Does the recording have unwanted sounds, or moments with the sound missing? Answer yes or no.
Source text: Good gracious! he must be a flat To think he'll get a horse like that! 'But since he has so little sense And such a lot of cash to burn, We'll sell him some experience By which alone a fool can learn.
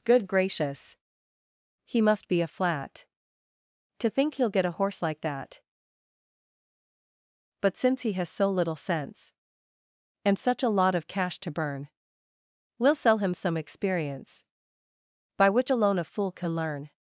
no